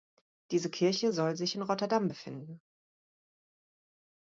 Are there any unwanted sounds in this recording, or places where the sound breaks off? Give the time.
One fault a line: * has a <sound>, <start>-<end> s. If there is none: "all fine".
all fine